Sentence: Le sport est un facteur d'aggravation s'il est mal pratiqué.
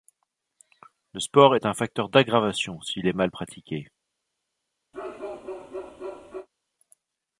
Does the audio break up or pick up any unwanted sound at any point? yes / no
yes